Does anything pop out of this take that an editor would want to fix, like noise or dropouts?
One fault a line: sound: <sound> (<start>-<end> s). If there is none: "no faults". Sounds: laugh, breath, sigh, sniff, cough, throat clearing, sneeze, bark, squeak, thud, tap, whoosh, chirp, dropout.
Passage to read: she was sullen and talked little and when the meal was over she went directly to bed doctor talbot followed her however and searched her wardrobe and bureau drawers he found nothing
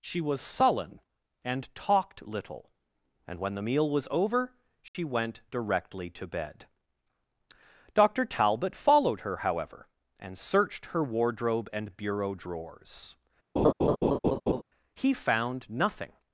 sound: dropout (4.9-4.9 s)
sound: laugh (13.6-14.6 s)